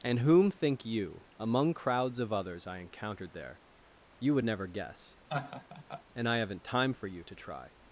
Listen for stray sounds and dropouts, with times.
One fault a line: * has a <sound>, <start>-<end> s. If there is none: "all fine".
* has a laugh, 5.3-6.0 s